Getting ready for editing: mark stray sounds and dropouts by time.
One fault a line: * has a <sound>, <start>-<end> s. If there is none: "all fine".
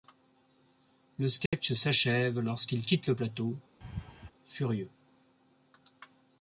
* has a dropout, 1.5-1.5 s
* has a laugh, 3.8-4.3 s